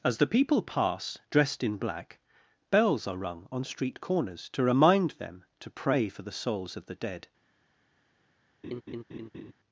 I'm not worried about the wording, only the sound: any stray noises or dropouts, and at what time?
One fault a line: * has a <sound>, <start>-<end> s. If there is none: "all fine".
* has a laugh, 8.6-9.5 s